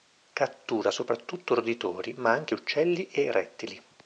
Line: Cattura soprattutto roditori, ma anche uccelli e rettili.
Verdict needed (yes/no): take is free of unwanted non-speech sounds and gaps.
yes